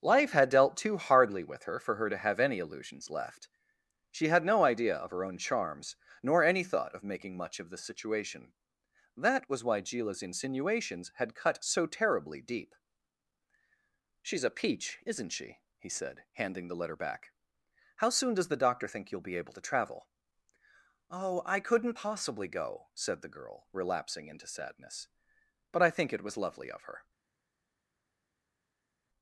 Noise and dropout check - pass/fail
pass